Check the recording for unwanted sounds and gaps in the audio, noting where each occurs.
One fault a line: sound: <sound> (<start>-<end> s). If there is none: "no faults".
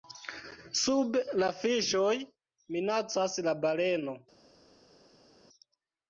no faults